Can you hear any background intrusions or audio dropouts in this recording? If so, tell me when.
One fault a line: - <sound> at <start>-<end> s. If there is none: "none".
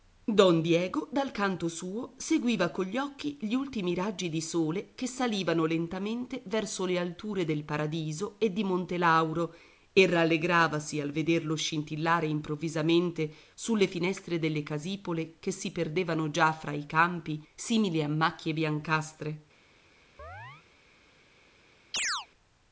- chirp at 20.2-20.7 s
- chirp at 21.9-22.3 s